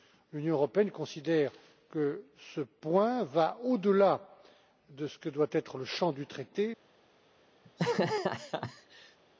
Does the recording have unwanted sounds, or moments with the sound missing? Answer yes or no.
yes